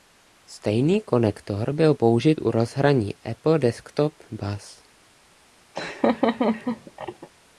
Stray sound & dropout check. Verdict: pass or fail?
fail